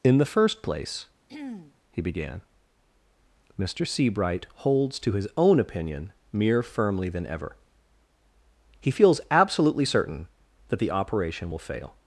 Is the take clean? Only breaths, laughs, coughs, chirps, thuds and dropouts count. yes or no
no